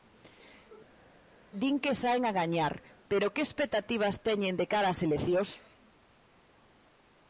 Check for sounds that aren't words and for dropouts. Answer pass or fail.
pass